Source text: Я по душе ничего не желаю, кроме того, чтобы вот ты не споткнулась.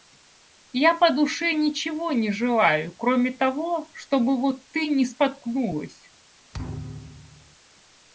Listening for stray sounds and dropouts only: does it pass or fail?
fail